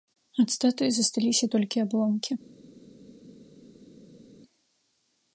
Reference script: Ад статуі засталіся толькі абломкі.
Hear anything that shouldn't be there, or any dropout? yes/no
no